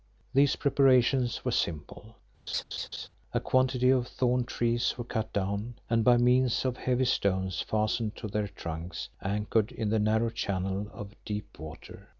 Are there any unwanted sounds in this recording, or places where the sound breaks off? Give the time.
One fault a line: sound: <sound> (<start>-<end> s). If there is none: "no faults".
sound: laugh (2.5-3.1 s)